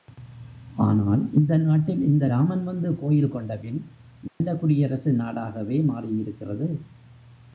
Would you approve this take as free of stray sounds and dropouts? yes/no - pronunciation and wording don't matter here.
no